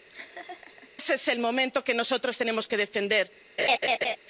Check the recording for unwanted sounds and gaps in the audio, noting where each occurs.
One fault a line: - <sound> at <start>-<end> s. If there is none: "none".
- laugh at 0.1-0.9 s
- laugh at 3.6-4.2 s